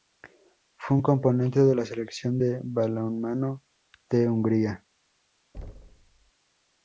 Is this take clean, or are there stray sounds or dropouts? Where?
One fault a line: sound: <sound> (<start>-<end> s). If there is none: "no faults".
sound: thud (5.5-6.3 s)